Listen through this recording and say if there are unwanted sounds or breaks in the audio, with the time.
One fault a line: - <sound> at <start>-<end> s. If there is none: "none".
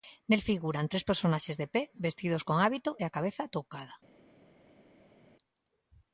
none